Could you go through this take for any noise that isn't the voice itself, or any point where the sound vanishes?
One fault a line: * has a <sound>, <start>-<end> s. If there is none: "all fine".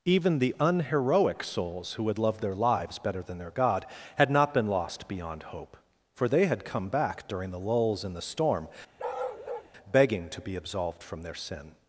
* has a bark, 9.0-9.7 s